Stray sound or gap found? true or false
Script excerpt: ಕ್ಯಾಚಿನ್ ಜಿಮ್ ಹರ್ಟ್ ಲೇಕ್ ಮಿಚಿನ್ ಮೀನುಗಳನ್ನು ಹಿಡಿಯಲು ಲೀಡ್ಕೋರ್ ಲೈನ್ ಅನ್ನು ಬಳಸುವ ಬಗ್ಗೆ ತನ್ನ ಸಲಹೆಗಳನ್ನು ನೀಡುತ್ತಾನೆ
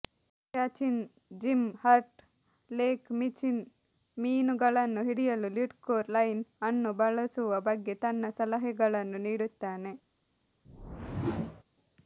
true